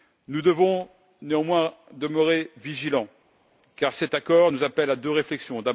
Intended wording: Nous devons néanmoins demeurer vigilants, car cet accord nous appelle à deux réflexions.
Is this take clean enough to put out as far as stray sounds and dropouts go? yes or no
yes